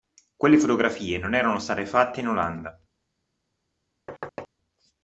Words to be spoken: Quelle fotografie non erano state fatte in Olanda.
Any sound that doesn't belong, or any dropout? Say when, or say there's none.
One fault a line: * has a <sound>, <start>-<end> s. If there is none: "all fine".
* has a thud, 4.1-4.5 s